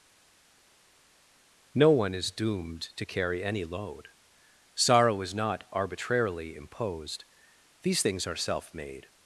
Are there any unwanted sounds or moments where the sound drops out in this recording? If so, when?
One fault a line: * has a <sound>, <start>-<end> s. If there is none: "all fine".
all fine